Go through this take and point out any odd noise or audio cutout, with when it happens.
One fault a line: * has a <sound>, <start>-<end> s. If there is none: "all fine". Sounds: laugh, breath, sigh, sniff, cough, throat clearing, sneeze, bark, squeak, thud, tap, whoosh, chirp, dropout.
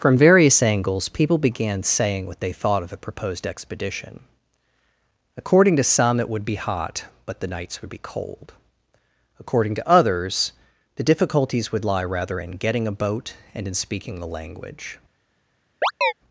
* has a chirp, 15.8-16.1 s